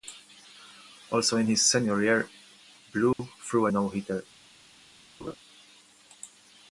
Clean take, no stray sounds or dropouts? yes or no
no